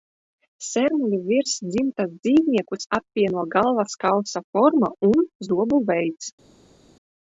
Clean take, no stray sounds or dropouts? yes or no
yes